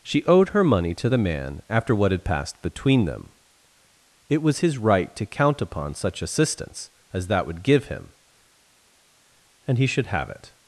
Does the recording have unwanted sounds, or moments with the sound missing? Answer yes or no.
no